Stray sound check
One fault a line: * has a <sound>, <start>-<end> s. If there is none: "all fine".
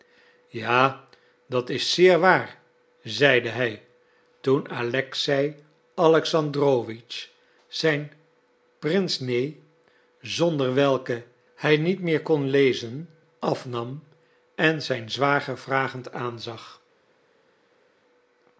all fine